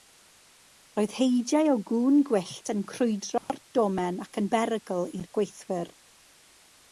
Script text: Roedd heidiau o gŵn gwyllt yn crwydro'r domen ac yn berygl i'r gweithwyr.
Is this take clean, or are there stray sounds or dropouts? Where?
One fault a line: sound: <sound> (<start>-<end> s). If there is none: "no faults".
sound: dropout (3.4-3.5 s)